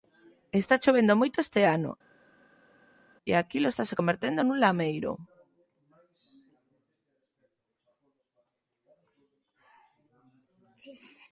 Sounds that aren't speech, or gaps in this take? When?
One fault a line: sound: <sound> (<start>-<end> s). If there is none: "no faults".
no faults